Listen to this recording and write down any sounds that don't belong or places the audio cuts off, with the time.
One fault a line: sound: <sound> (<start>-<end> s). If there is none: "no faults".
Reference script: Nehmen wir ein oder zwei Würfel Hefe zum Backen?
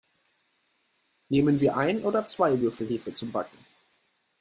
no faults